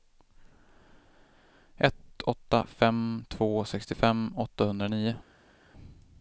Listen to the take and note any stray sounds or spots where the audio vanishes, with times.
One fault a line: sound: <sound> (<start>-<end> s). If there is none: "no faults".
no faults